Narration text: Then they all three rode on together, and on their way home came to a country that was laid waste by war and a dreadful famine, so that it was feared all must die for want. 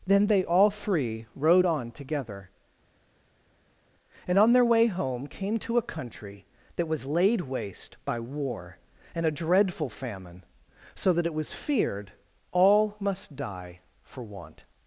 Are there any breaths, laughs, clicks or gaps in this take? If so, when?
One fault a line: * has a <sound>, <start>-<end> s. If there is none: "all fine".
all fine